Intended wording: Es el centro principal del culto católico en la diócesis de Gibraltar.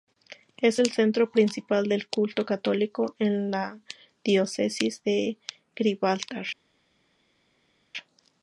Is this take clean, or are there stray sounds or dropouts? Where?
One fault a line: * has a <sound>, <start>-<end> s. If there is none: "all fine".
all fine